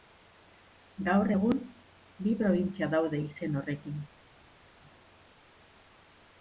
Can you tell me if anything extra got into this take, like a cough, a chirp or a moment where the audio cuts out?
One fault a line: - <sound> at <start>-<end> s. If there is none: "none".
none